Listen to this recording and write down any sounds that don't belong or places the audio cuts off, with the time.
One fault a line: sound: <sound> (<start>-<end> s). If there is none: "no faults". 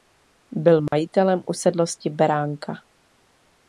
sound: dropout (0.9-0.9 s)